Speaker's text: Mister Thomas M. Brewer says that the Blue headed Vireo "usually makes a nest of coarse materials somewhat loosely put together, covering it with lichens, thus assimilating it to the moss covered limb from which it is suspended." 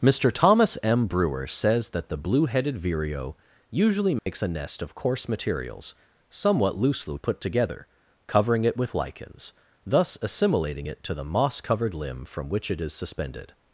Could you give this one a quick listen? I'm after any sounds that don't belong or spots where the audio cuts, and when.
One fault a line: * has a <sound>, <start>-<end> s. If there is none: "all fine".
* has a dropout, 4.2-4.3 s